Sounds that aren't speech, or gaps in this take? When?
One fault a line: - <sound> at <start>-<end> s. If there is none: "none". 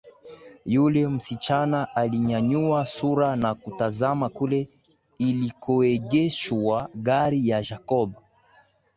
none